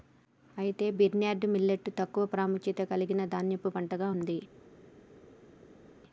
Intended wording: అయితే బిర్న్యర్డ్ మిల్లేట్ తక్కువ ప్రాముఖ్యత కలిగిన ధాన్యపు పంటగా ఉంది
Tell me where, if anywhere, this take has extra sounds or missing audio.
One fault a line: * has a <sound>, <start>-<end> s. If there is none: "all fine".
all fine